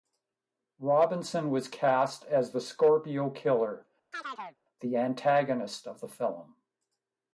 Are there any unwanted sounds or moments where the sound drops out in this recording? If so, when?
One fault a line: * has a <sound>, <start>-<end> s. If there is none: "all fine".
* has a chirp, 4.1-4.6 s